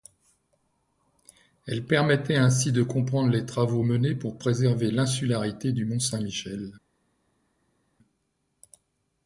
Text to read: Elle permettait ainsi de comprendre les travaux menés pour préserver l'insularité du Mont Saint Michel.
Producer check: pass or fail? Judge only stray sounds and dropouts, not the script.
pass